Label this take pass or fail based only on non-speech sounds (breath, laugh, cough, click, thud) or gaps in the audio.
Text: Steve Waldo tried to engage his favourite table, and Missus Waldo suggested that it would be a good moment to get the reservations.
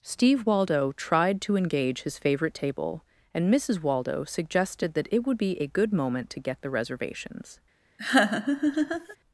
fail